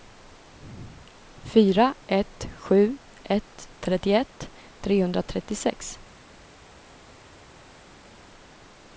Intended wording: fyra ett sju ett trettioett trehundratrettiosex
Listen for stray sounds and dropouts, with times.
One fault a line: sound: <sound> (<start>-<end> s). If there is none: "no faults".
no faults